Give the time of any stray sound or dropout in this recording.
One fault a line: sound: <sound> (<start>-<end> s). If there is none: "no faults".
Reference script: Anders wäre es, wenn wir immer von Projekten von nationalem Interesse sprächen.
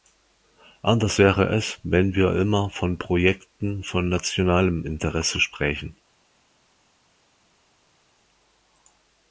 no faults